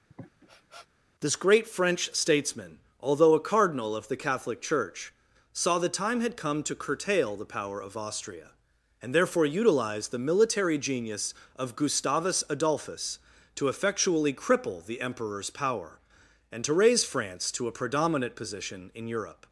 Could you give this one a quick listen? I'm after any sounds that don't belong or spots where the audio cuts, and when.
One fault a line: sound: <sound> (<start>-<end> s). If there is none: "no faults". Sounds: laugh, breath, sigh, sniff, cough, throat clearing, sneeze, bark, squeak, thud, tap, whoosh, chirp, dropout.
sound: sniff (0.1-0.9 s)